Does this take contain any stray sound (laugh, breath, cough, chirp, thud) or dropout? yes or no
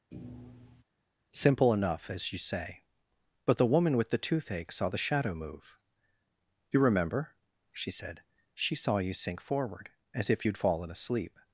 yes